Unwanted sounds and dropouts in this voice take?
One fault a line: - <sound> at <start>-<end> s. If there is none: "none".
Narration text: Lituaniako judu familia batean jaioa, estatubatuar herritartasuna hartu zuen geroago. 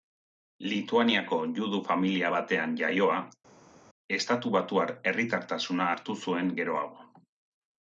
none